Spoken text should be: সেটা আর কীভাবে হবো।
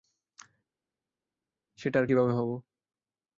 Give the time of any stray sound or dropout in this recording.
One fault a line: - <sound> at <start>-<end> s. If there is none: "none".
none